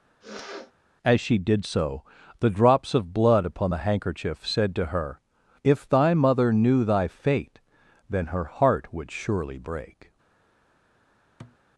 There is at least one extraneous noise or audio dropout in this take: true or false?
true